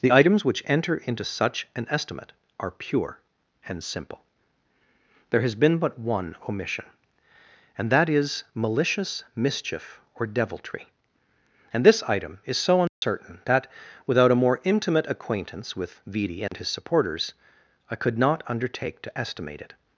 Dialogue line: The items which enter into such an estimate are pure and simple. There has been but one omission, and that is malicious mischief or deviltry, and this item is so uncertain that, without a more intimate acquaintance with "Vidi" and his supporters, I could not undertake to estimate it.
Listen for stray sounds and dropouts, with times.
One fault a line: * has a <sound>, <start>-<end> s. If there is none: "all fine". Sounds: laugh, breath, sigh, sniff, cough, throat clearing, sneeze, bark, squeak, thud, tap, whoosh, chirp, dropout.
* has a dropout, 12.9-13.0 s
* has a dropout, 16.5-16.5 s